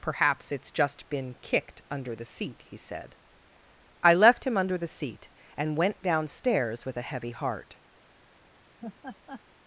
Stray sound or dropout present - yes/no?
yes